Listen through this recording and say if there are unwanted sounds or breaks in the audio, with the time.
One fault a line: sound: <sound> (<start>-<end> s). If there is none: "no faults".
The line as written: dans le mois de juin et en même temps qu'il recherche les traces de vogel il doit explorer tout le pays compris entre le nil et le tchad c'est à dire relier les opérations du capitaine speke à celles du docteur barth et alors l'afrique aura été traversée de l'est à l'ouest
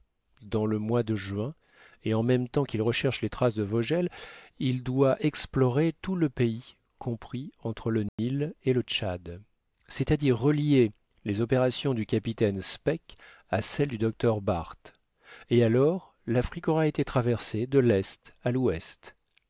sound: dropout (8.1-8.2 s)